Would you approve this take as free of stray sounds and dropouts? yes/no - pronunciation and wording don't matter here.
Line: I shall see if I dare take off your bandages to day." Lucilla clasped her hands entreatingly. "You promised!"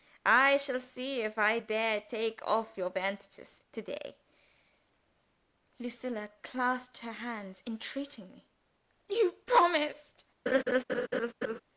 no